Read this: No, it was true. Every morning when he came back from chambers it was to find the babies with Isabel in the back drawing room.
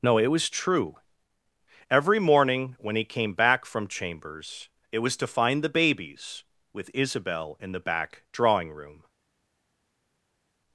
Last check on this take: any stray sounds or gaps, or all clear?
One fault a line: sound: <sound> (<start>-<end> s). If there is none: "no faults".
no faults